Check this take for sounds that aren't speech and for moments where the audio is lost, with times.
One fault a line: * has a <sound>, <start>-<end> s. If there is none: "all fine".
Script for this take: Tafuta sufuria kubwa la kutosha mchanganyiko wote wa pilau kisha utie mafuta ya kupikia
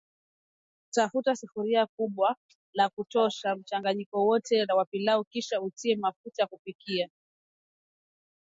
all fine